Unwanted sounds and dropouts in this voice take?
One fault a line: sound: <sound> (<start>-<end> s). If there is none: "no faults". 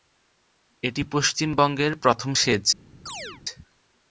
sound: chirp (3.1-3.4 s)